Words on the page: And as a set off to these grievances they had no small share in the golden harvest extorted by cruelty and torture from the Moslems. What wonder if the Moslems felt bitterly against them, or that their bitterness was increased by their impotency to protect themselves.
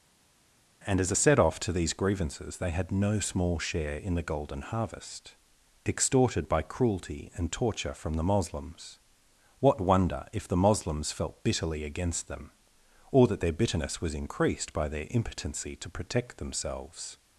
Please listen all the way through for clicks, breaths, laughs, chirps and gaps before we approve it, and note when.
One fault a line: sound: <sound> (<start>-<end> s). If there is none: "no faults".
no faults